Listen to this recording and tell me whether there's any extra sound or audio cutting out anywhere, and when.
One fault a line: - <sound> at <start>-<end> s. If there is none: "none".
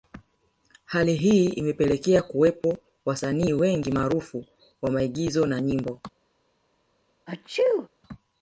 - sneeze at 7.3-7.9 s